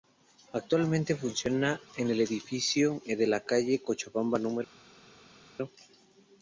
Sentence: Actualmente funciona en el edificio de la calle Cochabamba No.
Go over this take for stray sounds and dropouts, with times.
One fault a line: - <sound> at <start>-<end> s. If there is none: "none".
none